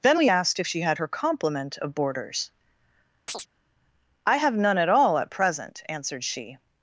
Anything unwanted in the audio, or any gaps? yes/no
yes